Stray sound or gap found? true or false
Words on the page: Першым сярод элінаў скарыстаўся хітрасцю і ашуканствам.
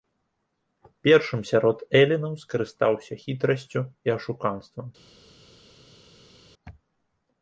false